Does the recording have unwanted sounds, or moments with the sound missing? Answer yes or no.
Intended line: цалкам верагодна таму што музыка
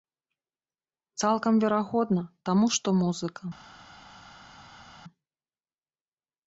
no